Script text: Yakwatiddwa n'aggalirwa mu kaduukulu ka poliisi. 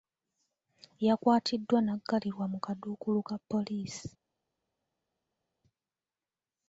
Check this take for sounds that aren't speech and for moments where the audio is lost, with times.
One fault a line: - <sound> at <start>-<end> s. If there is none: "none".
none